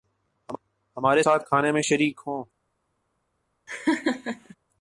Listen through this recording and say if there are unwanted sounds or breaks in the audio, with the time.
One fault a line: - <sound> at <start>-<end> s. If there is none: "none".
- laugh at 3.7-4.6 s